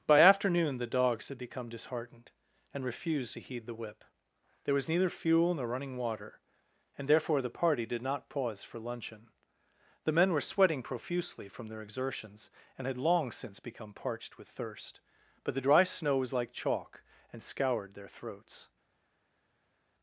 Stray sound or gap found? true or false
false